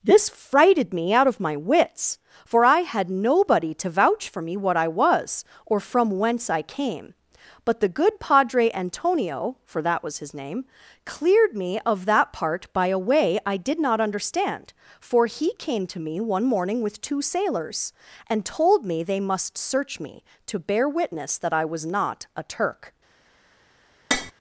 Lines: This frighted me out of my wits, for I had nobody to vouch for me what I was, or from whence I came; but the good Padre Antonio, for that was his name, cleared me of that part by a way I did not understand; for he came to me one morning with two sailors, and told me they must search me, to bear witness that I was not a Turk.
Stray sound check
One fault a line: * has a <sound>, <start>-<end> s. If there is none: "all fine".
* has a tap, 24.1-24.3 s